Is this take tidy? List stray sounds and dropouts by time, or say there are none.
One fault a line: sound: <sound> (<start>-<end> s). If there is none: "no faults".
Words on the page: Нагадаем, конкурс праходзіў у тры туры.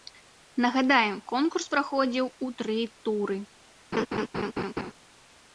sound: laugh (3.9-4.9 s)